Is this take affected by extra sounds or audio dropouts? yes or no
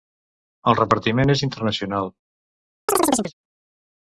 yes